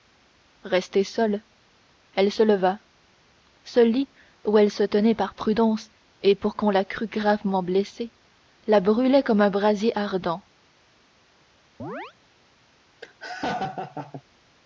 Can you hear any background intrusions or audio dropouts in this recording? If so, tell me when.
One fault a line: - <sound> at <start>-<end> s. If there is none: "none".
- chirp at 11.8-12.1 s
- laugh at 13.0-14.2 s